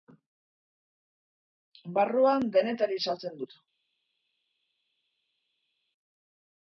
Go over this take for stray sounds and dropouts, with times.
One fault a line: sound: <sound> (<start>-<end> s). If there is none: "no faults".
no faults